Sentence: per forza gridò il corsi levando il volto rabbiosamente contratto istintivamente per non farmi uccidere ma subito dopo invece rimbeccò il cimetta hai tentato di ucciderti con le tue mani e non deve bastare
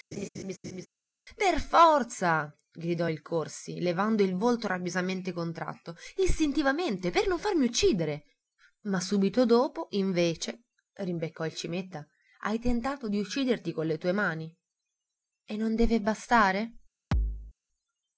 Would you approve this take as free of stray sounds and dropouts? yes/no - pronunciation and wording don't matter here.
no